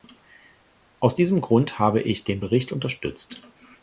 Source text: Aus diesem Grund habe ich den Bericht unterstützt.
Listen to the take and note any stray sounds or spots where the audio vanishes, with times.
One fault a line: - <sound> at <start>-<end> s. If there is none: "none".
none